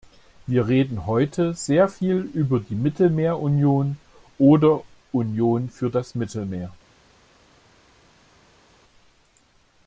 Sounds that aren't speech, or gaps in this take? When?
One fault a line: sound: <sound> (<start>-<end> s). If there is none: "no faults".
no faults